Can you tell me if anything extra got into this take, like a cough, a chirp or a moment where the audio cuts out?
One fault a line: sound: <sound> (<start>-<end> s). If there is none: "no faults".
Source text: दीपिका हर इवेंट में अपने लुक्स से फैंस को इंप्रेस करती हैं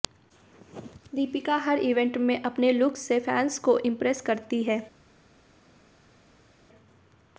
no faults